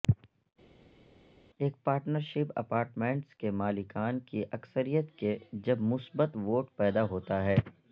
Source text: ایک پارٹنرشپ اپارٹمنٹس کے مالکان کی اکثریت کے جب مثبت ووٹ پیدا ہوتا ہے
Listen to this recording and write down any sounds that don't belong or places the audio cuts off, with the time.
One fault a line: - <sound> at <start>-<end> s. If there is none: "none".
none